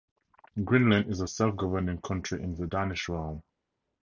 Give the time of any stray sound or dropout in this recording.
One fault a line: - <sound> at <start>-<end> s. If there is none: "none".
none